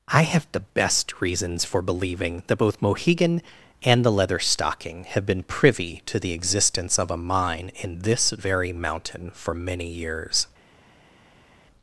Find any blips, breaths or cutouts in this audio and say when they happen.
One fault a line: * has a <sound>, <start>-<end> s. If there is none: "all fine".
all fine